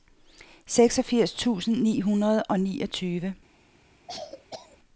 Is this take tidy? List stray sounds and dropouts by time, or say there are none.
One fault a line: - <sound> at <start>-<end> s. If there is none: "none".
- cough at 4.1-4.8 s